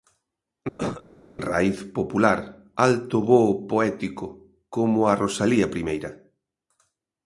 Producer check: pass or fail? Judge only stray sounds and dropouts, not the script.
fail